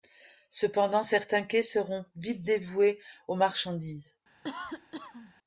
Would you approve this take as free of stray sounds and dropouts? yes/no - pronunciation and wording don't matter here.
no